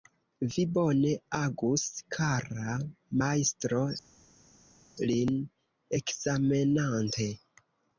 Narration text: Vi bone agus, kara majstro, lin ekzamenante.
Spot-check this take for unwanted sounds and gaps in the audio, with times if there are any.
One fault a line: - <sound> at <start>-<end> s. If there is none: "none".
none